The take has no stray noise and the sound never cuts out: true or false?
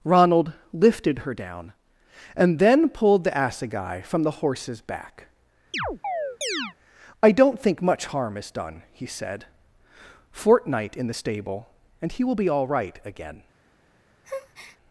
false